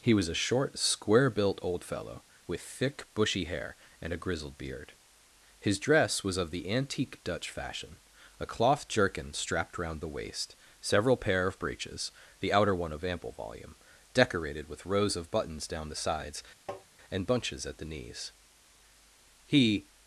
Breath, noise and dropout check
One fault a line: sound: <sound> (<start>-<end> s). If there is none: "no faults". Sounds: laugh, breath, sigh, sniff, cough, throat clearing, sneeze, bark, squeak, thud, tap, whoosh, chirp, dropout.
sound: tap (16.7-16.9 s)